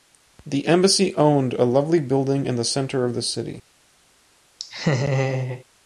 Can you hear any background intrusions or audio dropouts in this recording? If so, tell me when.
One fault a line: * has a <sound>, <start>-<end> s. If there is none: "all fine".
* has a laugh, 4.6-5.6 s